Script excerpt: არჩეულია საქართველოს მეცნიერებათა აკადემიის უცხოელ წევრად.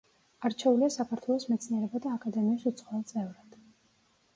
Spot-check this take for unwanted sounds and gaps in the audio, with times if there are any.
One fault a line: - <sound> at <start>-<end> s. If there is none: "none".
none